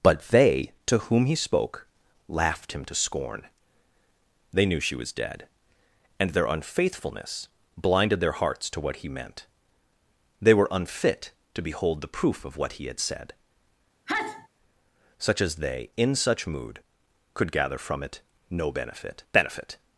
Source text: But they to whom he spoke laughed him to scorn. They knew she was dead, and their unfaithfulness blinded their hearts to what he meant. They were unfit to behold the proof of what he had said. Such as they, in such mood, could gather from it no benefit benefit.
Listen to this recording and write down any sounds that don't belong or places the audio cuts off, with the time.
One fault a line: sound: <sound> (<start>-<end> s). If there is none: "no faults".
sound: sneeze (14.1-14.5 s)